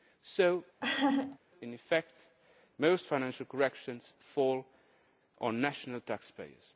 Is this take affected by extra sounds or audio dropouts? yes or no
yes